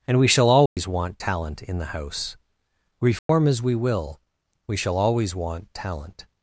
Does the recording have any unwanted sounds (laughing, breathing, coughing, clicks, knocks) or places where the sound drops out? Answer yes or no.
yes